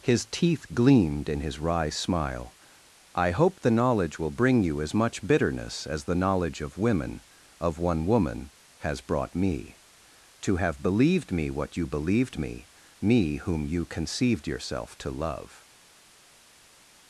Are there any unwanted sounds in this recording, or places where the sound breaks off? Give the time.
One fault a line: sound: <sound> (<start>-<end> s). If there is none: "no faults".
no faults